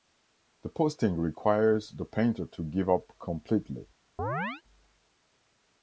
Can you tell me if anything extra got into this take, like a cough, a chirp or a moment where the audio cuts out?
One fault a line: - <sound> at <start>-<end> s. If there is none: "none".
- chirp at 4.2-4.6 s